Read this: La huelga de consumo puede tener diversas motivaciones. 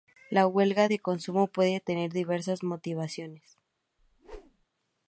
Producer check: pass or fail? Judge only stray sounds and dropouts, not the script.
fail